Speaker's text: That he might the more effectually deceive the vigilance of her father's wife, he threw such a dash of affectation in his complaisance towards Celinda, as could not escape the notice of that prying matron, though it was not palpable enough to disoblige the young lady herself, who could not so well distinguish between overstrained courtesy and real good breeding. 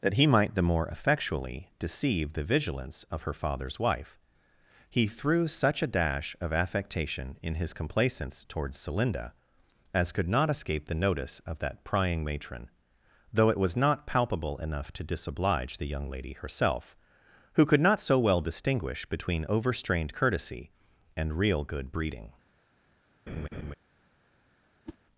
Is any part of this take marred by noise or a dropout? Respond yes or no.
yes